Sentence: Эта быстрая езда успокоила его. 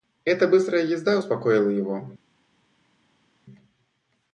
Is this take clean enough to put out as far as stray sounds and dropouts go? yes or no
yes